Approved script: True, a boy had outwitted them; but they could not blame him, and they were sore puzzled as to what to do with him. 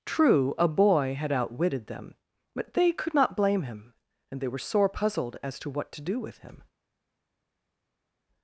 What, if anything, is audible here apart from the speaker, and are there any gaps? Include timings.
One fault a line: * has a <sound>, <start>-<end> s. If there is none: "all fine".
all fine